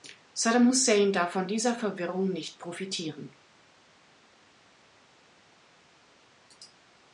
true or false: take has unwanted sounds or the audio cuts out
false